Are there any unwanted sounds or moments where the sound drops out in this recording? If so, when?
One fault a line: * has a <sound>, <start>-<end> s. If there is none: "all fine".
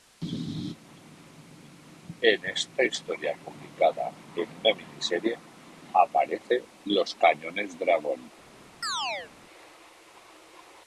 * has a chirp, 8.8-9.3 s